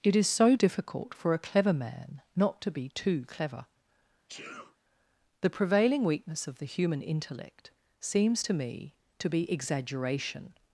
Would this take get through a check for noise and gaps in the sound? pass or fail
fail